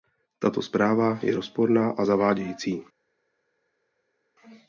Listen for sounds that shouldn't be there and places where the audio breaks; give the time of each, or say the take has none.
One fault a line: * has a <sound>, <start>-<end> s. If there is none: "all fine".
all fine